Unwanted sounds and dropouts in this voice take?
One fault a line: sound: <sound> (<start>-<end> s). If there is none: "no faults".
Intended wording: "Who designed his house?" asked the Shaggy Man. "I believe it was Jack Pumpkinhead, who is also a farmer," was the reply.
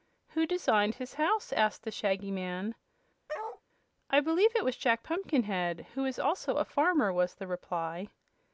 sound: bark (3.3-3.6 s)